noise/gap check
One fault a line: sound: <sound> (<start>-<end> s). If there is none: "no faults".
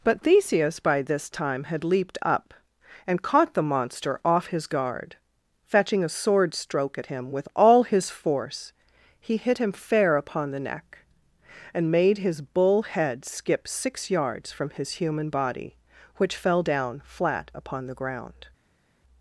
no faults